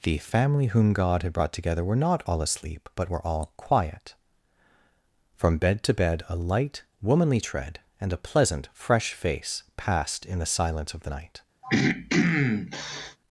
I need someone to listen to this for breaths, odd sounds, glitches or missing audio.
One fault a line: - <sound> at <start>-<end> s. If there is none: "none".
- throat clearing at 11.6-13.2 s